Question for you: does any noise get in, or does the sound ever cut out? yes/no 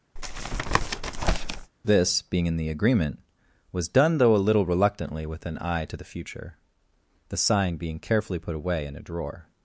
yes